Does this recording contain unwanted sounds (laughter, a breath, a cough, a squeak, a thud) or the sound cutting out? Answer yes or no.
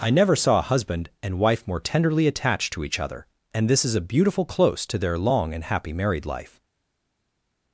no